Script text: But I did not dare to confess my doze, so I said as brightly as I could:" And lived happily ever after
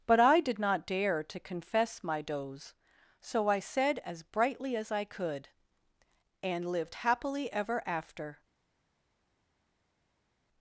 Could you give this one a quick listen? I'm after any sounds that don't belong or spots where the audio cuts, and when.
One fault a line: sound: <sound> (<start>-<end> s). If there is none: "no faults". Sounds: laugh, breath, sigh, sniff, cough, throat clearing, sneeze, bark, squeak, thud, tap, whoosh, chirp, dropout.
no faults